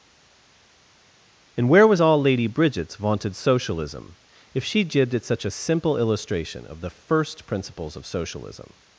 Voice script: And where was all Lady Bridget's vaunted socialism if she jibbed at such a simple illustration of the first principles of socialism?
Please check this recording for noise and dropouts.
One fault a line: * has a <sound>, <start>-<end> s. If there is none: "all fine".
all fine